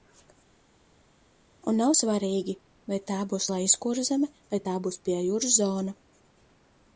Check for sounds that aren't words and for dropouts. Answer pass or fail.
pass